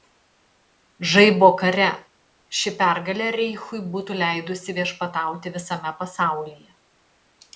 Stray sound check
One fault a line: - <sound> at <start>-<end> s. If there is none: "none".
none